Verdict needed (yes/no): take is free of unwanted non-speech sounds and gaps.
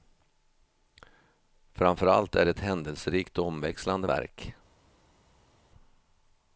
yes